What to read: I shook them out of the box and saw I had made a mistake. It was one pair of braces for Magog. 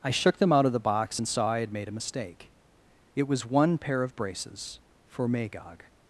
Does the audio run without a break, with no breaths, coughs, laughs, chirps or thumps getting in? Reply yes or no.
yes